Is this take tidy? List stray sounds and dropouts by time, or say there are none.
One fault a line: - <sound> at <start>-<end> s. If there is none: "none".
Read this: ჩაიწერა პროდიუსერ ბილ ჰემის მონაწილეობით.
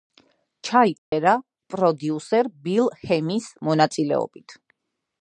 - dropout at 1.0-1.1 s